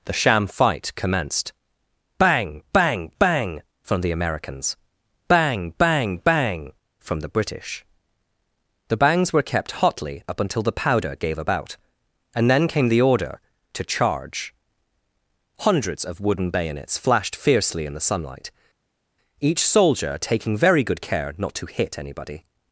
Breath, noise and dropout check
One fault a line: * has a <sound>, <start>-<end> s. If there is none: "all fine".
all fine